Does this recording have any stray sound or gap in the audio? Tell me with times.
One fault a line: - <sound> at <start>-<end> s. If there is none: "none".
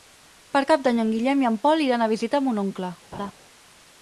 - laugh at 3.1-3.3 s